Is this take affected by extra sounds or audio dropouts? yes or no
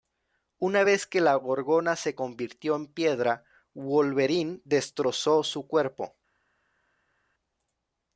no